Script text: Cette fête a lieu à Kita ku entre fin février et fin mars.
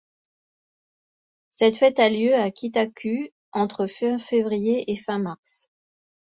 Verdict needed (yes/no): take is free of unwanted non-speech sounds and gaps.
yes